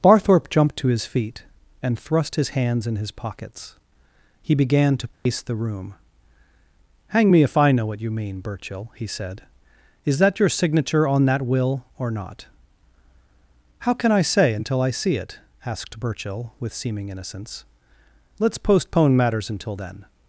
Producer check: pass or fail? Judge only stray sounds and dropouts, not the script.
fail